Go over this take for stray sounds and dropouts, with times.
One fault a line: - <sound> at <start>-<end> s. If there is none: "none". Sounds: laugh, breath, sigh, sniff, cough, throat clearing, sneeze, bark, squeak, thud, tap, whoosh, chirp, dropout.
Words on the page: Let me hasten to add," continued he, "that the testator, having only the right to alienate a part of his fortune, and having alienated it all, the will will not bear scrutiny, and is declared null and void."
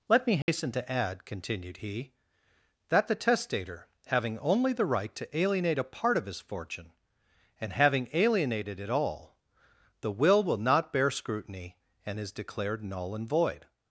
- dropout at 0.4-0.5 s